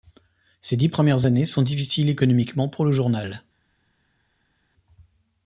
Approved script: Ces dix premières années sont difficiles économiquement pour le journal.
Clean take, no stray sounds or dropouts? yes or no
yes